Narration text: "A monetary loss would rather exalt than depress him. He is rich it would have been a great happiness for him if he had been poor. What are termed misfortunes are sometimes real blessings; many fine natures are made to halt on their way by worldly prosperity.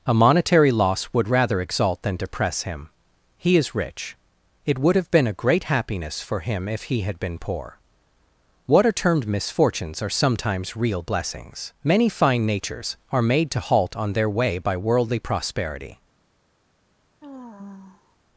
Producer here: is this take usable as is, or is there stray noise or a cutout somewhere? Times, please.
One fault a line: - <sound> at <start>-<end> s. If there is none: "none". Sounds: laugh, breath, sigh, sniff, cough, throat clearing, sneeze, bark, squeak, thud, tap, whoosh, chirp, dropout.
- sigh at 17.2-18.2 s